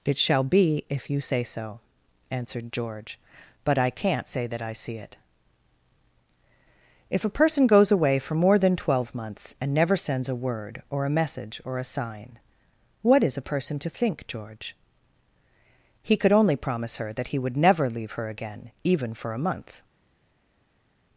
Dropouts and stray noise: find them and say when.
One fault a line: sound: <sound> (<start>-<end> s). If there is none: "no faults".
no faults